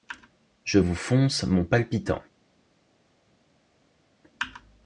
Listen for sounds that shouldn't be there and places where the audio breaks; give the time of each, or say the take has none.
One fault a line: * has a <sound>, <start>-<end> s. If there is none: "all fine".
all fine